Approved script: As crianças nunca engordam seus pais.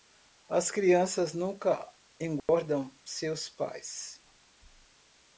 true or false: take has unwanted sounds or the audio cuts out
true